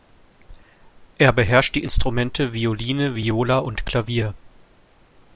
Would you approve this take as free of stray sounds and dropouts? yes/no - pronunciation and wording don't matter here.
yes